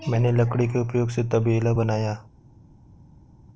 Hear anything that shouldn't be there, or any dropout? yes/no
no